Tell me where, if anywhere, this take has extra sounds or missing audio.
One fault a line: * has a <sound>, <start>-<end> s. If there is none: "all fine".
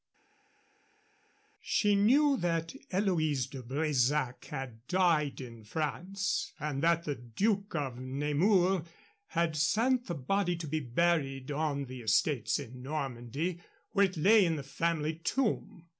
all fine